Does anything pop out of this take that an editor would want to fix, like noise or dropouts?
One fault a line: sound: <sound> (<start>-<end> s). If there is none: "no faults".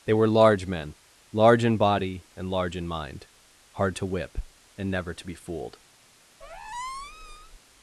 sound: squeak (6.4-7.6 s)